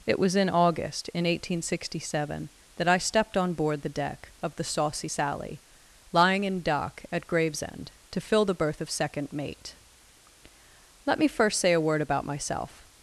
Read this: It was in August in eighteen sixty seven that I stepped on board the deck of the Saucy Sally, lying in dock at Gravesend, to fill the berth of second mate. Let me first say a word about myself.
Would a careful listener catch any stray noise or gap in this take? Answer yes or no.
no